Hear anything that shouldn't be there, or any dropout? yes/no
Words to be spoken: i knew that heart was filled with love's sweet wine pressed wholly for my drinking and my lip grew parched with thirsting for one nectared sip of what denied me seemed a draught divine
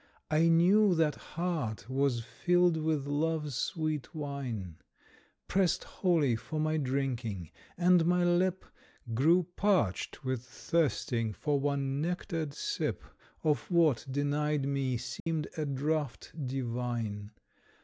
yes